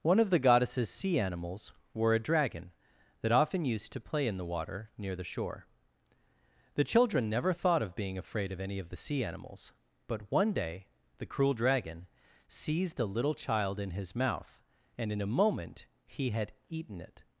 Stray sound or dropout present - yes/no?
no